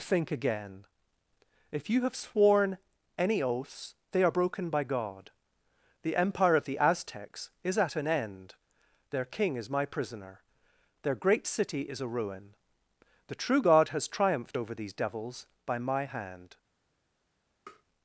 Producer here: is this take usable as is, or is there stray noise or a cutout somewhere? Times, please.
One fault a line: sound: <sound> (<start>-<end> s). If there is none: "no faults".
sound: tap (17.7-17.8 s)